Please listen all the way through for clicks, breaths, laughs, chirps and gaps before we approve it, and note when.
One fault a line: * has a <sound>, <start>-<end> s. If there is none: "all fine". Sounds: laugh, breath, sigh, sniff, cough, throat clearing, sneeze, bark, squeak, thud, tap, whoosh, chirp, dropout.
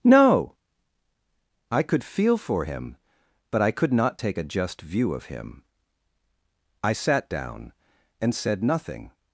all fine